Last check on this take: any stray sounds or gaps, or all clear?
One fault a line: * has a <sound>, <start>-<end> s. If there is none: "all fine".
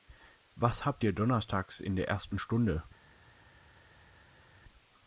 all fine